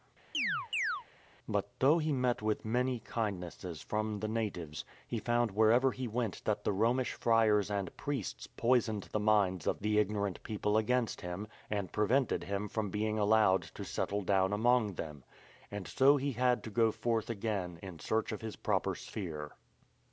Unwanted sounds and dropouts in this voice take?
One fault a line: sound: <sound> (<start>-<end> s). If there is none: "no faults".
sound: chirp (0.3-1.0 s)